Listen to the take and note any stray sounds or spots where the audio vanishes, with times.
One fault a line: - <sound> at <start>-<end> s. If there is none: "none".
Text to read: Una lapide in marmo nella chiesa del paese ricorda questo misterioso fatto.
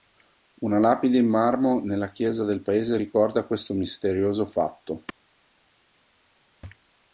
none